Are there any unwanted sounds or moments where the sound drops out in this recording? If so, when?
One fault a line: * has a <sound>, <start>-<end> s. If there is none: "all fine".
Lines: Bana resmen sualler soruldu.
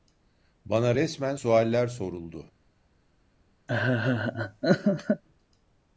* has a laugh, 3.7-5.2 s